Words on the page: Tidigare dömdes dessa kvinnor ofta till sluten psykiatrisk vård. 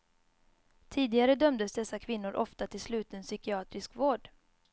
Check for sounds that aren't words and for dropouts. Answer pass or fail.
pass